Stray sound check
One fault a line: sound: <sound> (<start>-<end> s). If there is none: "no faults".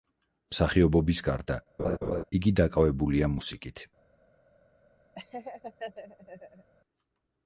sound: laugh (1.8-2.2 s)
sound: laugh (5.2-6.7 s)